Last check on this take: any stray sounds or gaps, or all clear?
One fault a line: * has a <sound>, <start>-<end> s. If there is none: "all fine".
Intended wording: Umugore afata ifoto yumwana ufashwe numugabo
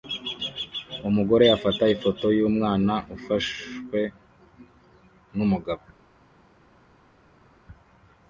all fine